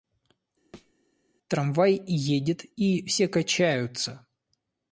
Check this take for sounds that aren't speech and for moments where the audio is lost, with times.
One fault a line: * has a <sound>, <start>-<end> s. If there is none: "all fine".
* has a thud, 0.7-0.9 s